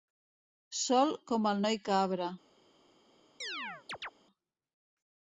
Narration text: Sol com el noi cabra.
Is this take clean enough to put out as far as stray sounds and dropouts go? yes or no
no